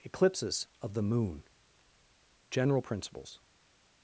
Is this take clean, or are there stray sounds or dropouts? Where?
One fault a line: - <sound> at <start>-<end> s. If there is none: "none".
none